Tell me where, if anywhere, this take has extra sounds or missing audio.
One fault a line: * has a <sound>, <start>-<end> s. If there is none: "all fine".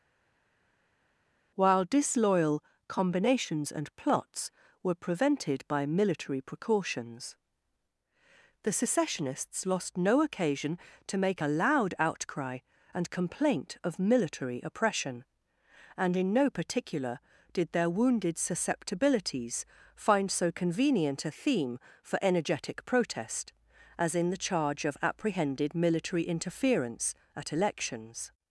all fine